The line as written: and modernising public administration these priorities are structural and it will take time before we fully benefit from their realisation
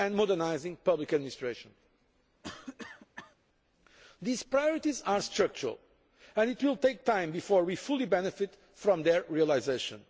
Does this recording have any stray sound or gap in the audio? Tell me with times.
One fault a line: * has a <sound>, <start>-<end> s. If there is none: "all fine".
* has a cough, 2.4-3.4 s